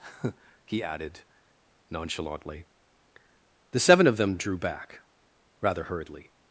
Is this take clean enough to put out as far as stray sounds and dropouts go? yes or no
yes